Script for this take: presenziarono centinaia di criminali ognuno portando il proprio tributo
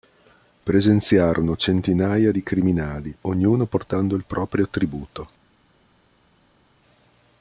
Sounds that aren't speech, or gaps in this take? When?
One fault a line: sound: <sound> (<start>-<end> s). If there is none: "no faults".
no faults